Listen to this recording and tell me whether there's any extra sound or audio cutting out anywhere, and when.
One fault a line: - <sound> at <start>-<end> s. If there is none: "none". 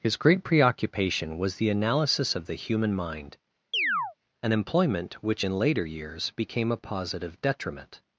- chirp at 3.7-4.1 s